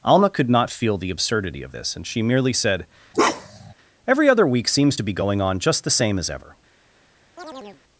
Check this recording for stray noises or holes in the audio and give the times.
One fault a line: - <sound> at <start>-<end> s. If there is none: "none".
- bark at 3.1-3.7 s
- chirp at 7.4-7.8 s